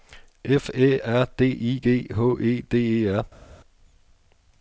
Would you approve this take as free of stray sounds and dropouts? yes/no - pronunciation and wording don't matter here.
yes